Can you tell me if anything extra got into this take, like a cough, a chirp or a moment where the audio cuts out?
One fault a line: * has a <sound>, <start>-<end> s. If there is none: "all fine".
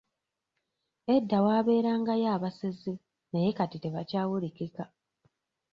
all fine